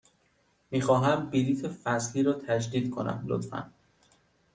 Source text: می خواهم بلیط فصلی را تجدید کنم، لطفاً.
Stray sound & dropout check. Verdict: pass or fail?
pass